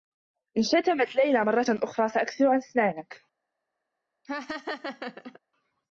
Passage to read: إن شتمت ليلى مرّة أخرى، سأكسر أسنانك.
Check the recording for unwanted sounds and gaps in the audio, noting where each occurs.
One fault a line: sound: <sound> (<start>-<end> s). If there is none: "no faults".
sound: laugh (4.2-5.4 s)